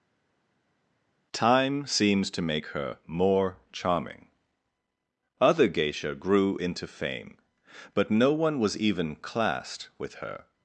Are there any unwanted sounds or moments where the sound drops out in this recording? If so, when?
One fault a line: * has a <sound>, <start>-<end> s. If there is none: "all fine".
all fine